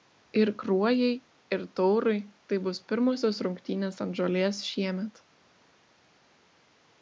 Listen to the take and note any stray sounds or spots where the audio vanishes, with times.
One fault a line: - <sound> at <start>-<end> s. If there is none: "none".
none